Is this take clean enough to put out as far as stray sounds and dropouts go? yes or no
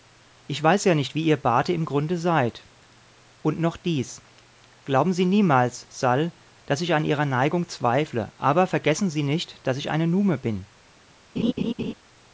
no